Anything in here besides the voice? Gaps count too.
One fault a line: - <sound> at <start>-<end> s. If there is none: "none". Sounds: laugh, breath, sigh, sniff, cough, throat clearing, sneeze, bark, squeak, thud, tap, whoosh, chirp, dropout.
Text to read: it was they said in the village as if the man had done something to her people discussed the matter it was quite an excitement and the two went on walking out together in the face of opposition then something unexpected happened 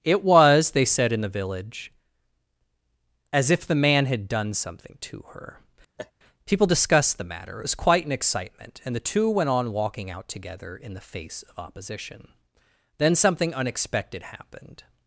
- laugh at 6.0-6.1 s